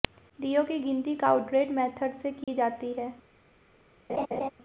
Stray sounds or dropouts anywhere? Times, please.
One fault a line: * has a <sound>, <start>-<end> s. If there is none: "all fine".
* has a dropout, 2.4-2.5 s
* has a laugh, 4.1-4.5 s